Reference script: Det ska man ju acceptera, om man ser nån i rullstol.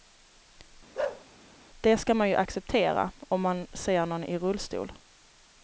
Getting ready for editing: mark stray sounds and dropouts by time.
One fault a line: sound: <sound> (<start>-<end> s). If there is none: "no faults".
sound: bark (0.9-1.2 s)